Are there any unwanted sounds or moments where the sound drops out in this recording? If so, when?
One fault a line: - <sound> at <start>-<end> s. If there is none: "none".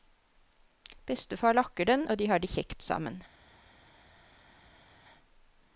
none